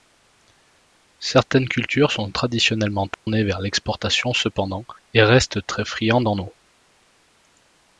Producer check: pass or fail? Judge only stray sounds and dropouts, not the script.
fail